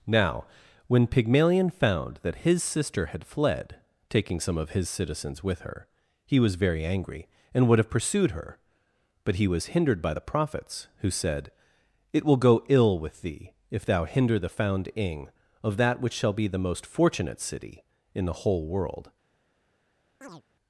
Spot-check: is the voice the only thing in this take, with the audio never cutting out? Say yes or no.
no